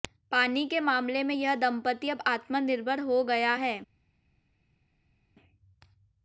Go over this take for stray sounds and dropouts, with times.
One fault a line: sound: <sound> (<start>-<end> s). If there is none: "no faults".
no faults